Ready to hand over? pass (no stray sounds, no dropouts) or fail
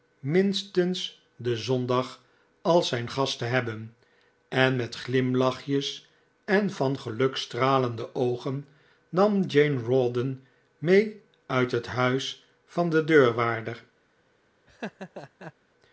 fail